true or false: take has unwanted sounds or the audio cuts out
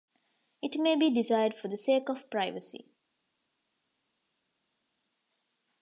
false